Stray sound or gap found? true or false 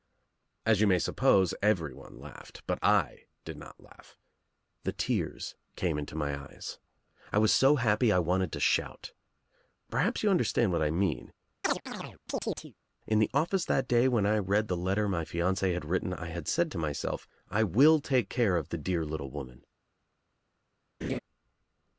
true